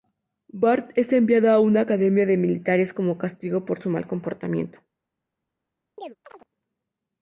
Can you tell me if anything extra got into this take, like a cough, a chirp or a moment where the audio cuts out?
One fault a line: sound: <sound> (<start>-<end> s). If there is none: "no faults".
sound: chirp (6.0-6.5 s)